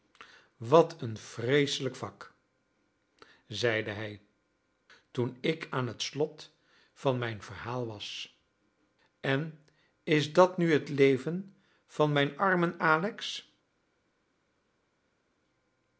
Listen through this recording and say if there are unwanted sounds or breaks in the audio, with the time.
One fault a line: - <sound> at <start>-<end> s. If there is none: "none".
none